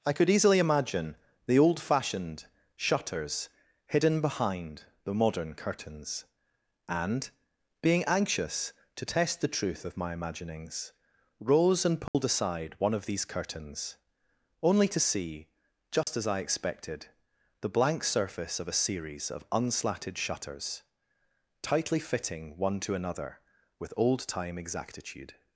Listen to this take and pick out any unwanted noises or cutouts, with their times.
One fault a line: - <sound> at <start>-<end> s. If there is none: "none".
- dropout at 12.1-12.1 s
- dropout at 16.0-16.1 s